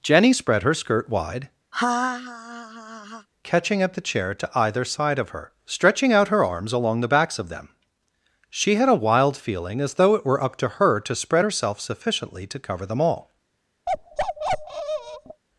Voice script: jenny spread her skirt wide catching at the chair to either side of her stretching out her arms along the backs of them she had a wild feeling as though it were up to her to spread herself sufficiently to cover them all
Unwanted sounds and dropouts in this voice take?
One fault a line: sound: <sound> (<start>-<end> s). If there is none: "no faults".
sound: laugh (1.7-3.3 s)
sound: bark (13.9-15.4 s)